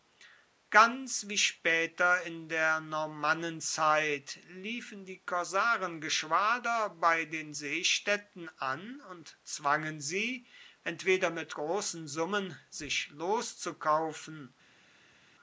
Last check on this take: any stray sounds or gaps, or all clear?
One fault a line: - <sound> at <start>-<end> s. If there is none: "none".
none